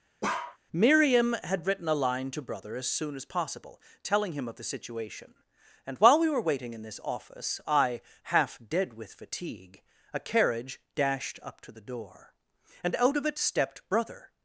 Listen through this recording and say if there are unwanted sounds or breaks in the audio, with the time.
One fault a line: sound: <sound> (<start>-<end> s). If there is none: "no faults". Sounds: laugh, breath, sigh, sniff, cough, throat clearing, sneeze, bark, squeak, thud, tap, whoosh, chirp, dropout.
sound: bark (0.2-0.6 s)